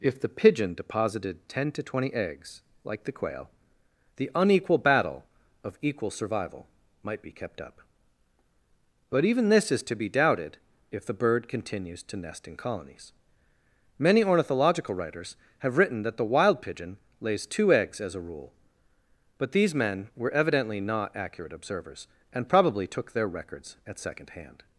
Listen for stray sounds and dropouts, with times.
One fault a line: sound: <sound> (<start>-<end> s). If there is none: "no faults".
no faults